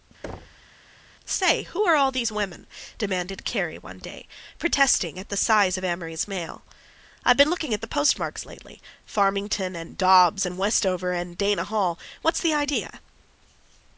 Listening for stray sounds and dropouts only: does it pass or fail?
fail